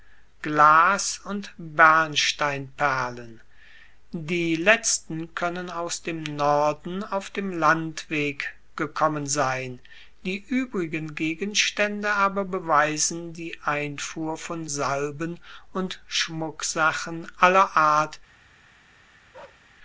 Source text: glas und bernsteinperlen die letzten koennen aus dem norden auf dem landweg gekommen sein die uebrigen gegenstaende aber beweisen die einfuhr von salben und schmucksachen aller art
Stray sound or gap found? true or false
true